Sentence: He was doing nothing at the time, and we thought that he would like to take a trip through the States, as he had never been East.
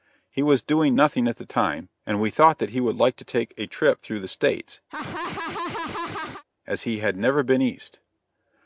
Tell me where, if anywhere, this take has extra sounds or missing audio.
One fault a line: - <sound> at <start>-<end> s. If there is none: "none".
- laugh at 4.9-6.4 s